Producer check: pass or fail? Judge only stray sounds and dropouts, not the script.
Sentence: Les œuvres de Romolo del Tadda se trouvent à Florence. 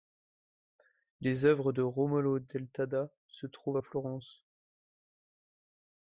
pass